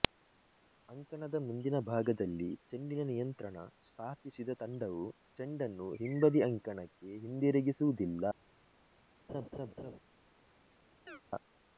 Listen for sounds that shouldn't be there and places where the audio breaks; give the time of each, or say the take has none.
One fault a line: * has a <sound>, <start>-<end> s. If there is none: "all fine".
* has a laugh, 9.3-10.0 s
* has a chirp, 11.1-11.2 s